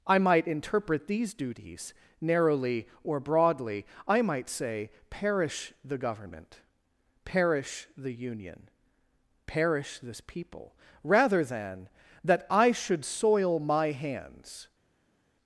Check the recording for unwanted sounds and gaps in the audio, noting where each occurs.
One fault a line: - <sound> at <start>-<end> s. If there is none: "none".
none